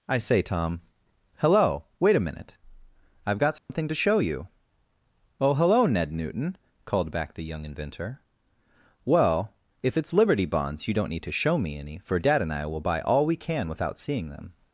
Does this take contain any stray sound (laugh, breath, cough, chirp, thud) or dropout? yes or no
yes